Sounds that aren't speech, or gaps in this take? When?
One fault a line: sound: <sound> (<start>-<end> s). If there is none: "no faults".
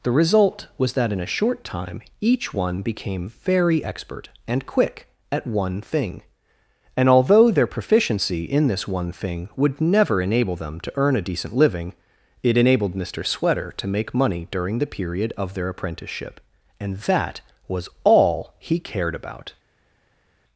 no faults